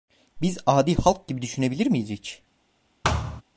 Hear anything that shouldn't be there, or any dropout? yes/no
yes